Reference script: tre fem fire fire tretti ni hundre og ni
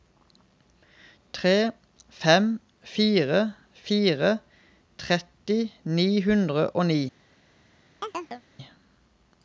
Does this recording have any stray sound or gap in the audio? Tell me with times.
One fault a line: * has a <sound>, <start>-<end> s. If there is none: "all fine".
* has a chirp, 8.0-8.4 s